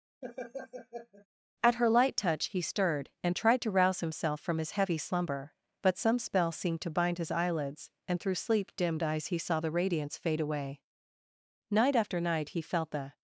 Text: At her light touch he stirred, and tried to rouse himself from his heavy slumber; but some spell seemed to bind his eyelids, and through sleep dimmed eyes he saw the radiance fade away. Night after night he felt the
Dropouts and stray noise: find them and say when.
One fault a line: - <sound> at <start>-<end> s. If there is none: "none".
- laugh at 0.2-1.3 s